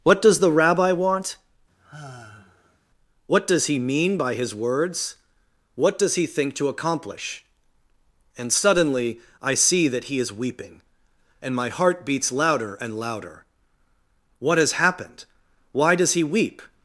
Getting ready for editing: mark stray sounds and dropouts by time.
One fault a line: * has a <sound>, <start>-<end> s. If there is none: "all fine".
* has a sigh, 1.7-2.8 s